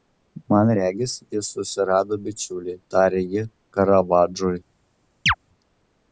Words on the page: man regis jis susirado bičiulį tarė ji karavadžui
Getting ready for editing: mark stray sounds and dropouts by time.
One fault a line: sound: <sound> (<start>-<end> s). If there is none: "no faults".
sound: chirp (5.3-5.3 s)